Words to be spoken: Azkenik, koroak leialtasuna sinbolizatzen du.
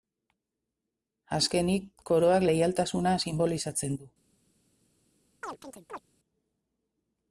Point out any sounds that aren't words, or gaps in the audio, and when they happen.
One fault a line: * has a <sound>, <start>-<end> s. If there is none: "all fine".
* has a chirp, 5.4-6.0 s